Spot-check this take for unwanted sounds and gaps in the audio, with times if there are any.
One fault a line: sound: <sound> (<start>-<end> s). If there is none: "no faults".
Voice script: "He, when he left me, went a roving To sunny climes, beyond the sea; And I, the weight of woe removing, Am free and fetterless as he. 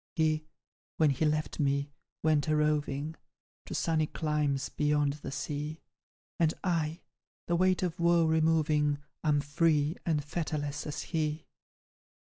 no faults